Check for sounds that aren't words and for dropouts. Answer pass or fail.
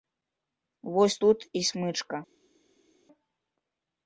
pass